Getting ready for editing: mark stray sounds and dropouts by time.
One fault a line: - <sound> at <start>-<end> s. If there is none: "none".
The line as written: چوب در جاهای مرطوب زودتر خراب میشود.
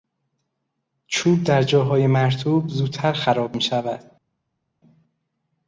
none